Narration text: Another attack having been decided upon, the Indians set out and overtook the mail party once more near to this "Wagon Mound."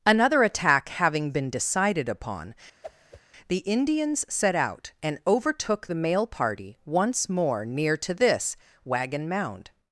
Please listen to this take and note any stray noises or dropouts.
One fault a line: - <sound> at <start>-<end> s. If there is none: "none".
- whoosh at 2.8-3.2 s